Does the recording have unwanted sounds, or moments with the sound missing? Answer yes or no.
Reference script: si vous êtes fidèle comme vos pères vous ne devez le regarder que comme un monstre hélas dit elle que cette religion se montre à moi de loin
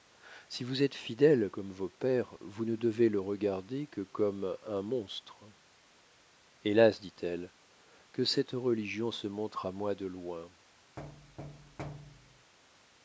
yes